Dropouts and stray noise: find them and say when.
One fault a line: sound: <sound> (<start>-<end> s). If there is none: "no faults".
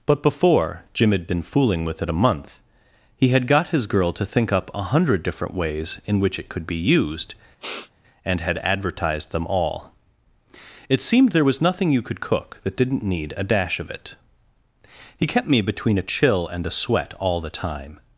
sound: sniff (7.6-7.9 s)